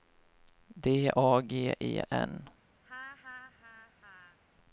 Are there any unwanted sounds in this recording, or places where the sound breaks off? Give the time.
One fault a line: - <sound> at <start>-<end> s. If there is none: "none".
- laugh at 2.8-4.4 s